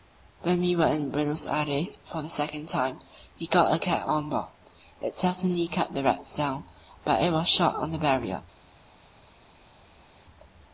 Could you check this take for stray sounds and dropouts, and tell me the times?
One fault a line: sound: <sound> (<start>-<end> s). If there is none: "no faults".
no faults